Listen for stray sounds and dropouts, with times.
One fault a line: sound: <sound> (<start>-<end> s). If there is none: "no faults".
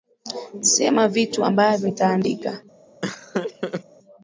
sound: laugh (3.0-3.8 s)